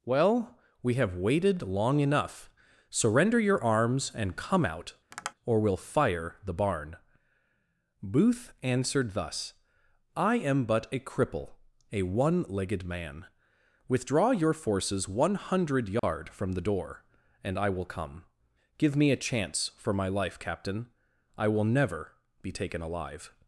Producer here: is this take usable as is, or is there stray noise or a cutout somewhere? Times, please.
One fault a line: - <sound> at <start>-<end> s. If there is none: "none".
- tap at 5.1-5.3 s
- dropout at 16.0-16.0 s